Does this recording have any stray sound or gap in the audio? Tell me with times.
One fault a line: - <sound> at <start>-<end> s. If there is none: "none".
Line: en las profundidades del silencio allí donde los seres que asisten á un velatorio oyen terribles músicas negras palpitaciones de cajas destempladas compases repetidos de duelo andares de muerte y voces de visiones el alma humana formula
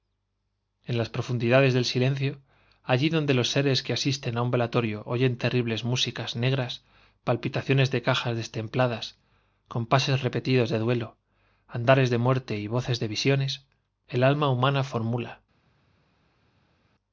none